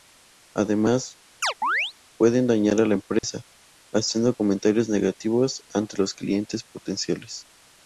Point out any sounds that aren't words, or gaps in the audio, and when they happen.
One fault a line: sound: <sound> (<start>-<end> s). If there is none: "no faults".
sound: chirp (1.4-1.9 s)
sound: dropout (3.2-3.2 s)